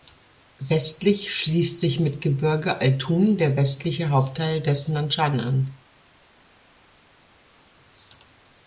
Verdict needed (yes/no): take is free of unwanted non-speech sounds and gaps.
yes